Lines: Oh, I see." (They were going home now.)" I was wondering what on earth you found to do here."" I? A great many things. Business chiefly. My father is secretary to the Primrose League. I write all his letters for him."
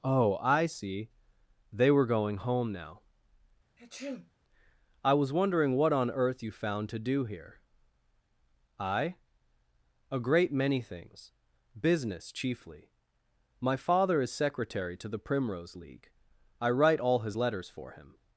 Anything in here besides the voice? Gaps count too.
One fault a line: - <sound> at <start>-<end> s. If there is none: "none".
- sneeze at 3.8-4.3 s